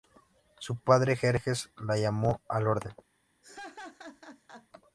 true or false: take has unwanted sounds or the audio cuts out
true